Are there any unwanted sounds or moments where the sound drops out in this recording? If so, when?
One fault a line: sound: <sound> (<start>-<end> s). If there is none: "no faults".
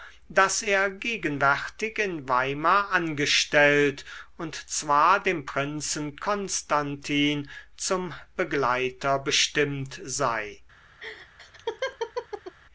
sound: laugh (11.0-12.6 s)